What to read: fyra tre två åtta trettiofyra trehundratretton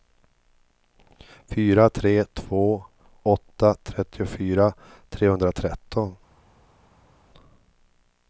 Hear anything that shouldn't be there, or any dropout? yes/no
no